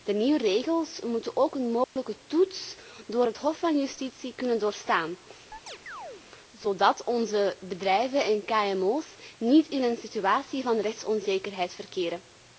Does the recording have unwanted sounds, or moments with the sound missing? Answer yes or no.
yes